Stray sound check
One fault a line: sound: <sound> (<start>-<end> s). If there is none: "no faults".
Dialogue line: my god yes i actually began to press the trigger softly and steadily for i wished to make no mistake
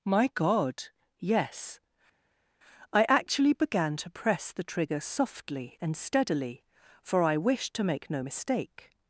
no faults